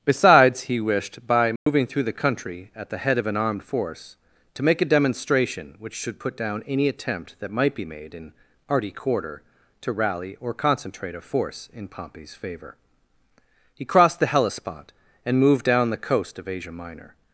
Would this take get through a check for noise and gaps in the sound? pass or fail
fail